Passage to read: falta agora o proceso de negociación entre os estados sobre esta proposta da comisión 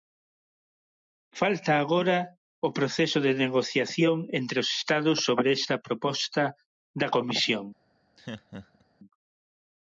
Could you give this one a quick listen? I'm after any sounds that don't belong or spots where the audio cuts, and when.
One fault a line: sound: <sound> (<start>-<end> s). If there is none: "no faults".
sound: laugh (8.2-8.8 s)